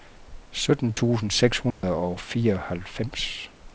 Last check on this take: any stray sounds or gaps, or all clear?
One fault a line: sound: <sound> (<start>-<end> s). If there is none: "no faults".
sound: dropout (1.7-1.8 s)